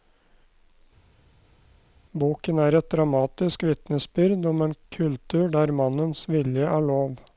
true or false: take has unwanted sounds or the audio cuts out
false